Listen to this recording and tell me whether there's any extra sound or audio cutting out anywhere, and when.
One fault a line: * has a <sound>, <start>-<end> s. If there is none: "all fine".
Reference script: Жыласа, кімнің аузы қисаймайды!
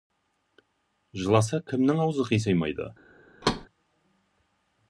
* has a thud, 3.4-3.7 s